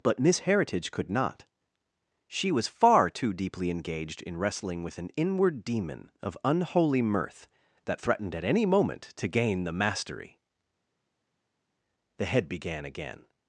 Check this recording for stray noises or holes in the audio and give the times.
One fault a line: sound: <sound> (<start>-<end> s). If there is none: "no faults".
no faults